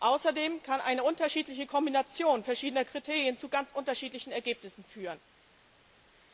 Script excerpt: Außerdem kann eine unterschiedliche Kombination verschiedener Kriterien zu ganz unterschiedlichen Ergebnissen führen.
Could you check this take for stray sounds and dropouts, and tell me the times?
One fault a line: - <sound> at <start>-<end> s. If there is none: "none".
none